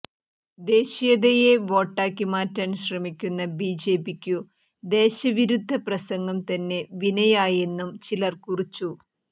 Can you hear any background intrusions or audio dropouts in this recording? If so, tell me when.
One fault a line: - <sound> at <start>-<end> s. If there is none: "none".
none